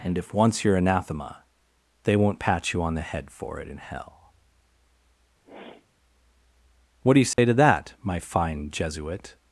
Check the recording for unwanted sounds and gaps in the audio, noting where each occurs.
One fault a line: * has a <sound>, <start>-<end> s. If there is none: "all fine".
* has a sniff, 5.4-5.9 s
* has a dropout, 7.3-7.4 s